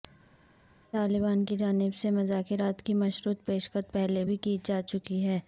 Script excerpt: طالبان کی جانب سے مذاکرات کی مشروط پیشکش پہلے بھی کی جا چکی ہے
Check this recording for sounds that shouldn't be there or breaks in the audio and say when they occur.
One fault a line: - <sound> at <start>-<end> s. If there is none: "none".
none